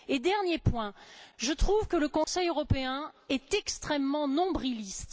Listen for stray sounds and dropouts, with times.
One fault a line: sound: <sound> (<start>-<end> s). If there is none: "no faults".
sound: dropout (2.2-2.3 s)